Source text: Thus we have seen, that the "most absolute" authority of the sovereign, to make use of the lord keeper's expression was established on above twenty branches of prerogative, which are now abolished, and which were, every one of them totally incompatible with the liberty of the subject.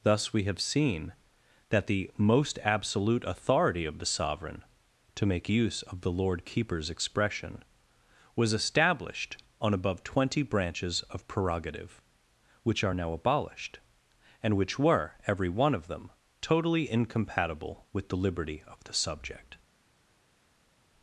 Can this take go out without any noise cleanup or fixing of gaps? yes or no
yes